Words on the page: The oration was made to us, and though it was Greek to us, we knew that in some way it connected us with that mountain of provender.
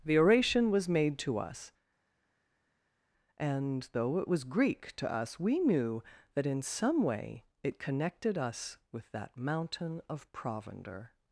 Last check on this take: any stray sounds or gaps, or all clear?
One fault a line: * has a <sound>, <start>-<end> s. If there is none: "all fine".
all fine